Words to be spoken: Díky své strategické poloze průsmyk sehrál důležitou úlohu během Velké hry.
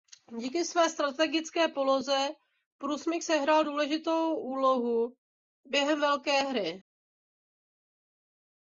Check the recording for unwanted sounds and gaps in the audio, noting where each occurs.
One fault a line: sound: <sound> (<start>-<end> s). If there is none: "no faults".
no faults